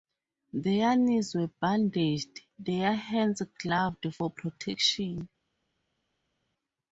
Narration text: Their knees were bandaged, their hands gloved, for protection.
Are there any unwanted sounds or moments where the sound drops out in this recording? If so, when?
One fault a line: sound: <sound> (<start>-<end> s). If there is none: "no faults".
no faults